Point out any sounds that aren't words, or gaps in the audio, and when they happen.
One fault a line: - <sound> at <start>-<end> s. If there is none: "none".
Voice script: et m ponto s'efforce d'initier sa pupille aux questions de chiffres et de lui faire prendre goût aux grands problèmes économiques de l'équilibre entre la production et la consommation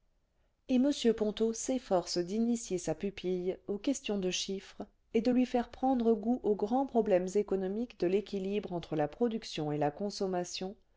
none